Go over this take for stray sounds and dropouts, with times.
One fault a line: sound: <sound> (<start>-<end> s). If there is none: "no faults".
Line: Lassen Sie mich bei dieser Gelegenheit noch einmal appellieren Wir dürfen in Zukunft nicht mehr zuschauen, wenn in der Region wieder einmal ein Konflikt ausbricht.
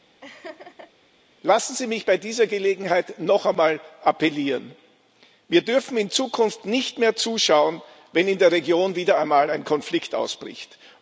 sound: laugh (0.2-0.9 s)